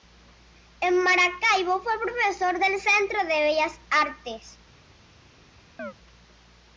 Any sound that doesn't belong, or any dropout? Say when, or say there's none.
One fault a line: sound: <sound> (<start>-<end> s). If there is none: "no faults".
sound: chirp (5.8-5.9 s)